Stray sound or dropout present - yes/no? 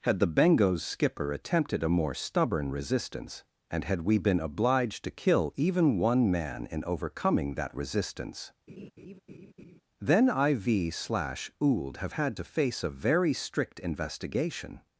yes